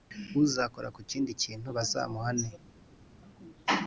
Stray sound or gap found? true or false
false